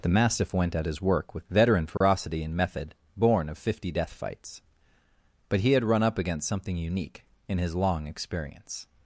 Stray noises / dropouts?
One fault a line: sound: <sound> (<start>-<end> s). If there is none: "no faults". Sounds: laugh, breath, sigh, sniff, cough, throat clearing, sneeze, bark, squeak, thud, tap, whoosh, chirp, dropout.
sound: dropout (2.0-2.0 s)